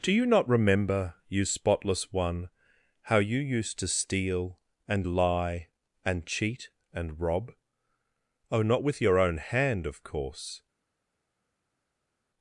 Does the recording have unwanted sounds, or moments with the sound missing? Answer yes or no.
no